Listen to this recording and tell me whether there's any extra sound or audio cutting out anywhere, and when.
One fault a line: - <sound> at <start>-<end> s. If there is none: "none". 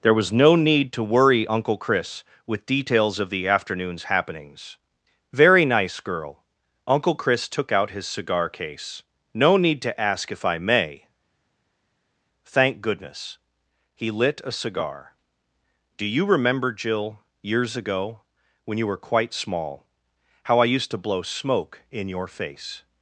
none